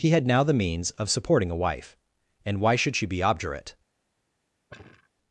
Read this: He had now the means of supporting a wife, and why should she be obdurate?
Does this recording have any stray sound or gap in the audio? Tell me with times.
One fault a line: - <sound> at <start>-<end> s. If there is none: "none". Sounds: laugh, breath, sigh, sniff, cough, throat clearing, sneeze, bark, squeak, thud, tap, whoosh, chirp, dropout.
- sigh at 4.7-5.1 s